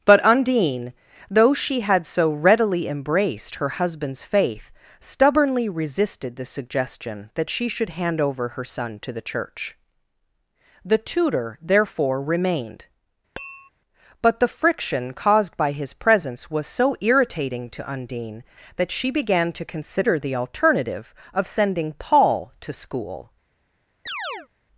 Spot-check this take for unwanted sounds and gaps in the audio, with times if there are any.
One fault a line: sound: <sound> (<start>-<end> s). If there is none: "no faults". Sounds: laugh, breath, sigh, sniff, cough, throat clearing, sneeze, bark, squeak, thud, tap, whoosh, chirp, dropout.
sound: tap (13.4-13.7 s)
sound: chirp (24.1-24.5 s)